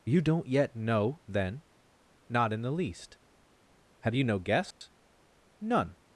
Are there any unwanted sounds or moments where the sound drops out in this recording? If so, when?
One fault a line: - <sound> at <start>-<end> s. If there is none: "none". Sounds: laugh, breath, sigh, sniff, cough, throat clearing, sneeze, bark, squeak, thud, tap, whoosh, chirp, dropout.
- dropout at 4.7-4.8 s